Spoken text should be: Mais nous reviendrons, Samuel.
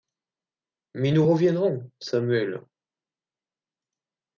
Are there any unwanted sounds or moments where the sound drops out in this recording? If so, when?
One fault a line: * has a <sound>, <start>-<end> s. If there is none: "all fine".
all fine